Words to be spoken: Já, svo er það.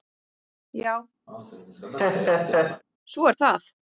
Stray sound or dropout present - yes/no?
yes